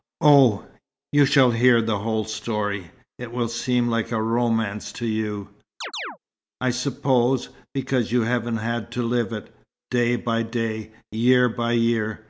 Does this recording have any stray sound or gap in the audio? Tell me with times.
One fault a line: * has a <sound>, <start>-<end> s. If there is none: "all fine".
* has a chirp, 5.8-6.2 s